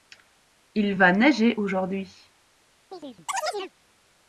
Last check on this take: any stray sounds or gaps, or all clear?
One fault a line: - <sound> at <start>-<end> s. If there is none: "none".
- chirp at 2.9-3.7 s